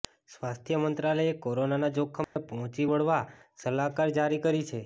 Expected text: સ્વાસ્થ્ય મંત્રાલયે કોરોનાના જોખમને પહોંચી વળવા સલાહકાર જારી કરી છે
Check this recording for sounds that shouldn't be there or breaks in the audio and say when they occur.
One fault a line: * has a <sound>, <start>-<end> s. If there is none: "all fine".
* has a dropout, 2.2-2.4 s